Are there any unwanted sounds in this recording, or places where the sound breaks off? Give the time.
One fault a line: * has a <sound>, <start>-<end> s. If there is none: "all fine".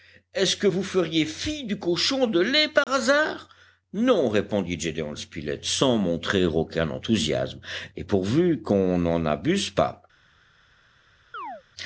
* has a dropout, 2.8-2.9 s
* has a chirp, 11.3-11.6 s